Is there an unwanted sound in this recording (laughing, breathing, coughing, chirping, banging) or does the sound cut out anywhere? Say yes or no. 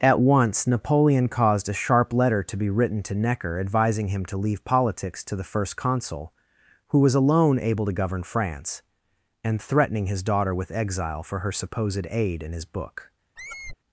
yes